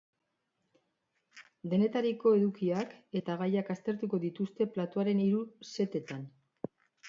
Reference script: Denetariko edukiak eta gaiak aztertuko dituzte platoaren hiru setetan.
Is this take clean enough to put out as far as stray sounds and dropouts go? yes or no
yes